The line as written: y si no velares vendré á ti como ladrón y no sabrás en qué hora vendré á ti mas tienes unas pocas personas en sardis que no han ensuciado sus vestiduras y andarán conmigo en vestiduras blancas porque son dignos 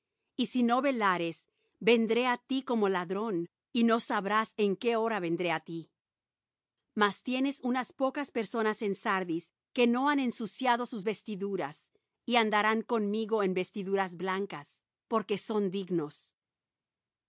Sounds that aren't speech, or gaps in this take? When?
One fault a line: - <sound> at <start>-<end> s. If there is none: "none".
none